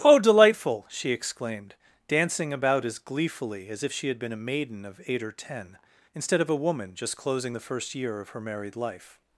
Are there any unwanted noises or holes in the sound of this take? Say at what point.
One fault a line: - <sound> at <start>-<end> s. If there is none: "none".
none